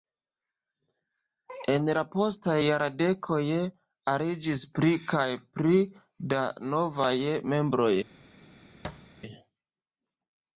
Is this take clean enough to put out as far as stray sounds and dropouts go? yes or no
no